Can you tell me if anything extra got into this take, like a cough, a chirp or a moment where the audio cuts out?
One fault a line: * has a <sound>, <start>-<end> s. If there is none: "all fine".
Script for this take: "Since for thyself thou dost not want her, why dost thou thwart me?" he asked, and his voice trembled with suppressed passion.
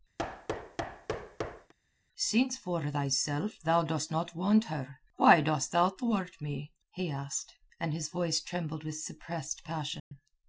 * has a thud, 0.2-1.7 s
* has a dropout, 10.0-10.1 s